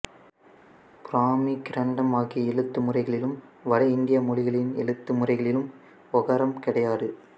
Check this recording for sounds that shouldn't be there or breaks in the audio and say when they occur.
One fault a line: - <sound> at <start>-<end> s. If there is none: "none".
none